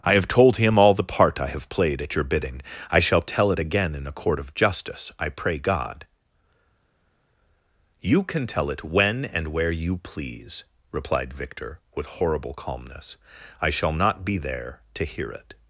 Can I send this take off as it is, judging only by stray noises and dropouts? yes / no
yes